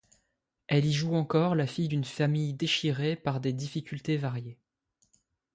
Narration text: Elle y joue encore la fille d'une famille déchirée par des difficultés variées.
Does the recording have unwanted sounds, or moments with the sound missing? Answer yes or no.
no